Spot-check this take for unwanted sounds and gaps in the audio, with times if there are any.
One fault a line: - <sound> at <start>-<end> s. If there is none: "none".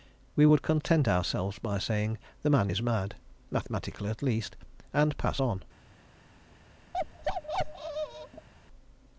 - bark at 6.9-8.5 s